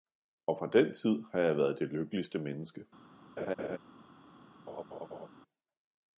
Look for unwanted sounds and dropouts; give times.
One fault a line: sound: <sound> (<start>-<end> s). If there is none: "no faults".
sound: laugh (3.4-3.8 s)
sound: laugh (4.7-5.3 s)